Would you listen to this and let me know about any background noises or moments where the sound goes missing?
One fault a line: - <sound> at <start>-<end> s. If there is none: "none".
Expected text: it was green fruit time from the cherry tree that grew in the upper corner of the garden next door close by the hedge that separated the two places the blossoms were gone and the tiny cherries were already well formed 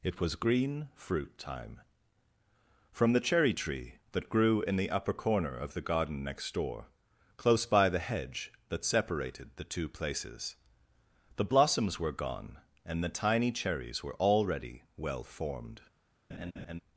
- laugh at 16.3-16.8 s